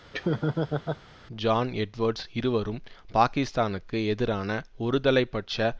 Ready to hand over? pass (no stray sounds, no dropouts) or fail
fail